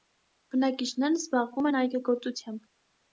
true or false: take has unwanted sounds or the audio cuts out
false